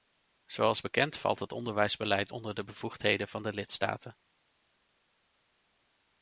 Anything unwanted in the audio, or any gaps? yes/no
no